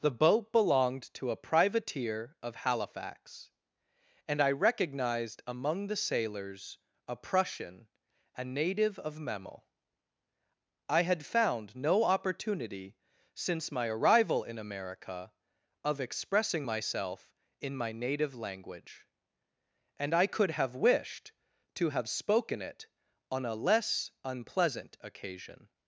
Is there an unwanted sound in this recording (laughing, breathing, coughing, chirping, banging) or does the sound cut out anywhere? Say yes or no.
no